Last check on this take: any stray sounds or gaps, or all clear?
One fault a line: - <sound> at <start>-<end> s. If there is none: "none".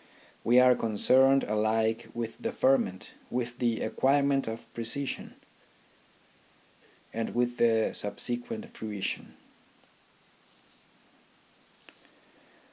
none